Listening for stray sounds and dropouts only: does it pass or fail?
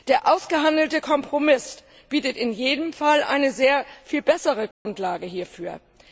fail